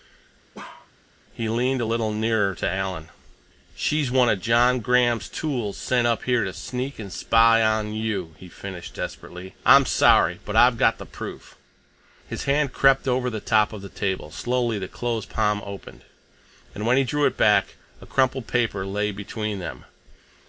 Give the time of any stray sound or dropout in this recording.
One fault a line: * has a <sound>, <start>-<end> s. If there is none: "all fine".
* has a bark, 0.5-0.9 s